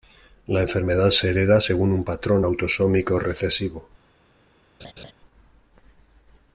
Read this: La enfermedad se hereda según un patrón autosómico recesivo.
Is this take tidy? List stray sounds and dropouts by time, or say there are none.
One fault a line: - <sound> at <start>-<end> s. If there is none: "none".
- laugh at 4.8-5.1 s